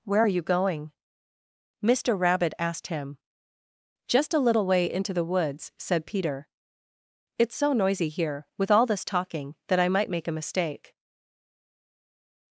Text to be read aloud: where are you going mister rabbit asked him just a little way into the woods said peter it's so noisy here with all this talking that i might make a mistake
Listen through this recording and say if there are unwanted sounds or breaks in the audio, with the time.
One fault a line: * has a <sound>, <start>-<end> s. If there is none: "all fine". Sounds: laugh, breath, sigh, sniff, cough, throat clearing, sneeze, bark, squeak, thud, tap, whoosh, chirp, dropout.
all fine